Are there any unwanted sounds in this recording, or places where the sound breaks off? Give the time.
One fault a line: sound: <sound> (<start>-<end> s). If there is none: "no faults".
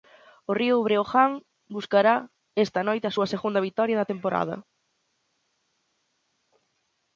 no faults